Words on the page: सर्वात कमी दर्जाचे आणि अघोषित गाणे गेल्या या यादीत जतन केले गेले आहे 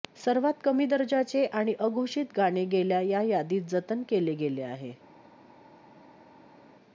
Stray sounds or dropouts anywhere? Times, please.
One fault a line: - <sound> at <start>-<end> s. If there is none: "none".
none